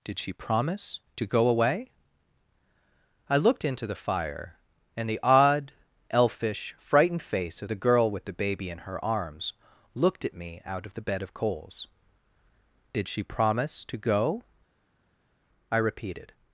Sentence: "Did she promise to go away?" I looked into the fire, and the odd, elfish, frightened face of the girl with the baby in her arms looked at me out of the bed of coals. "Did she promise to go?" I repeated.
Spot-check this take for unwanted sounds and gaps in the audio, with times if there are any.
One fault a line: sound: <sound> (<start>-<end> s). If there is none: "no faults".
no faults